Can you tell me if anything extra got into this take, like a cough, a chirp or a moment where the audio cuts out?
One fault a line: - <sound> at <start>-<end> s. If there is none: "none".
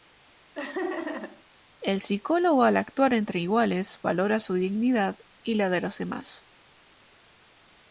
- laugh at 0.5-1.4 s